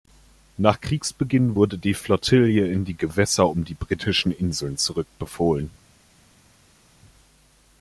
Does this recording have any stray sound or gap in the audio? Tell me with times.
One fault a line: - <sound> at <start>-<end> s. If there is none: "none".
none